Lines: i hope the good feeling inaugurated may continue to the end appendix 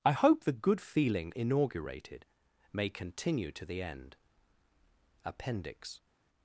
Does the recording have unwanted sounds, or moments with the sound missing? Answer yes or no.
no